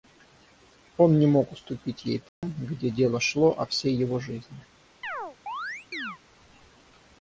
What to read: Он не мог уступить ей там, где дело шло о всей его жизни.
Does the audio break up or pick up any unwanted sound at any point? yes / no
yes